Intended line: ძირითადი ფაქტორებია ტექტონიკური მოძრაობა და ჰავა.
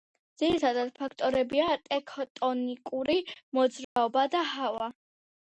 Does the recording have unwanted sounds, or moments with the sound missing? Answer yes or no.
yes